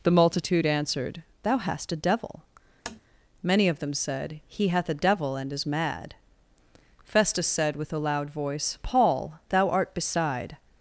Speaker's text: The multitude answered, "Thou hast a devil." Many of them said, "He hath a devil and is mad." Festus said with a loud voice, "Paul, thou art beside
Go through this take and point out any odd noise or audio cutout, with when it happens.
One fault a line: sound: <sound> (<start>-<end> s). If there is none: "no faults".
sound: tap (2.9-3.0 s)